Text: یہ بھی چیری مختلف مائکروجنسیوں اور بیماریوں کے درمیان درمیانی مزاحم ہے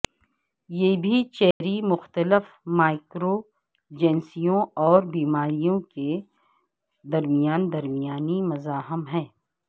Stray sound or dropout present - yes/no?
yes